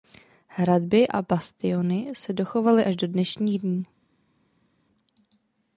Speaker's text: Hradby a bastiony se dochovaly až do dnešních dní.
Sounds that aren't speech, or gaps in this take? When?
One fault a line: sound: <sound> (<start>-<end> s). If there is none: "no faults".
no faults